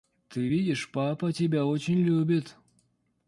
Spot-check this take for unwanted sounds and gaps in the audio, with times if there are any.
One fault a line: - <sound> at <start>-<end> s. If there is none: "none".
none